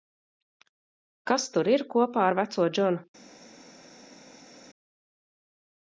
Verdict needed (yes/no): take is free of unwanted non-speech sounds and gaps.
yes